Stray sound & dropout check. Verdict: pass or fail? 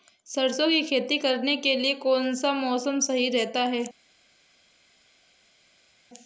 pass